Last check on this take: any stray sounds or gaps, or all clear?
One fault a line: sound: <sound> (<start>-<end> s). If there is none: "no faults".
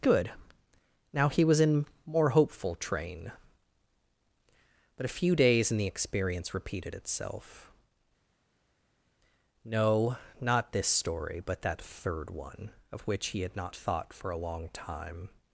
no faults